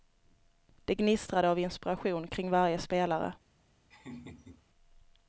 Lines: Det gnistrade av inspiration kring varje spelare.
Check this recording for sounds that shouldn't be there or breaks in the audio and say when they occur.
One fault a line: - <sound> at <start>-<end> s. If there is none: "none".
- laugh at 3.9-4.6 s